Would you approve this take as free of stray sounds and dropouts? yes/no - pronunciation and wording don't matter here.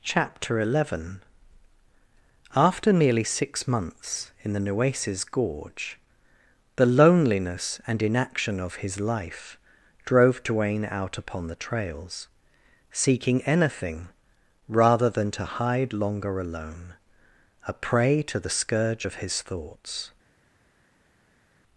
yes